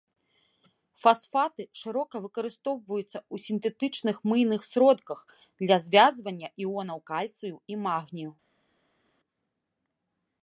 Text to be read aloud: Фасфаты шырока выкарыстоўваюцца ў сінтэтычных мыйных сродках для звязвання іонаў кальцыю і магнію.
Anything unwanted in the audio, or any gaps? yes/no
no